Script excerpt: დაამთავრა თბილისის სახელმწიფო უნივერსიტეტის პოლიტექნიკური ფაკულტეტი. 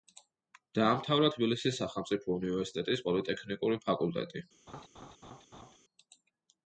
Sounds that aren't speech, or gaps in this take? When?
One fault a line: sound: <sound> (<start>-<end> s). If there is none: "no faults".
sound: laugh (4.7-5.8 s)